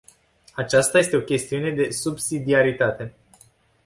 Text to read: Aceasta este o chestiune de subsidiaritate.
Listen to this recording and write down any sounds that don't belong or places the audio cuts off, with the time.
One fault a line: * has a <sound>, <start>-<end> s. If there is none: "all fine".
all fine